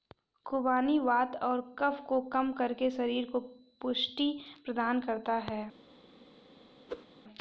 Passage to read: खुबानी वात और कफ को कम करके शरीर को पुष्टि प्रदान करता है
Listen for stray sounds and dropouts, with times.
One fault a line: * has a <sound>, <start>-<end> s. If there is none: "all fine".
* has a whoosh, 6.9-7.1 s